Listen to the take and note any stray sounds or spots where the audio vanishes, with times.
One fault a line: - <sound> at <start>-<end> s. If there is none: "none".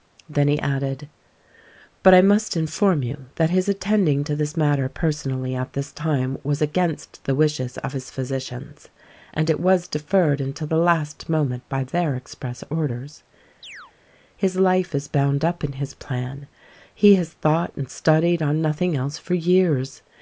- chirp at 13.6-13.9 s